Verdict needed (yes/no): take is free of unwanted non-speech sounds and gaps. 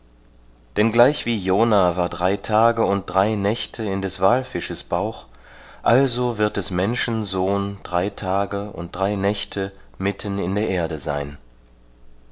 yes